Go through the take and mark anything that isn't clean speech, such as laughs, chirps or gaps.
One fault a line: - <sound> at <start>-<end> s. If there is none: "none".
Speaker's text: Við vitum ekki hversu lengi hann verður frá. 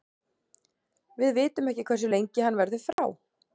- dropout at 2.9-3.0 s